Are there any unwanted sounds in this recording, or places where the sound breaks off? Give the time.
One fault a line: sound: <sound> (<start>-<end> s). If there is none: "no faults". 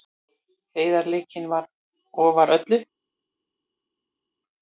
no faults